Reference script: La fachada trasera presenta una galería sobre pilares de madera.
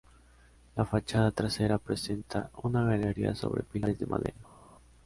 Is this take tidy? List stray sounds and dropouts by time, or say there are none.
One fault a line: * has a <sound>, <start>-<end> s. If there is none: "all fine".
all fine